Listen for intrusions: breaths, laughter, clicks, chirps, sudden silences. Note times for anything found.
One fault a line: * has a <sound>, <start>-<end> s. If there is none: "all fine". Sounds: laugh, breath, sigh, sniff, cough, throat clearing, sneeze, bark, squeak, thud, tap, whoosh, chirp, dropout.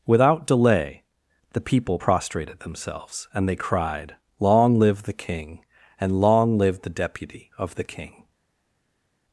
all fine